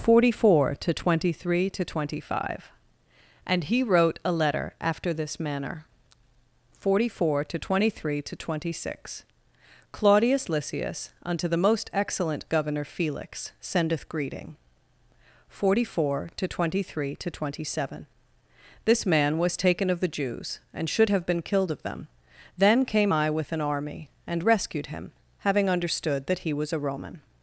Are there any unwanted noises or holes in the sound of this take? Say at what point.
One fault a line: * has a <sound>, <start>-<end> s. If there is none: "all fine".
all fine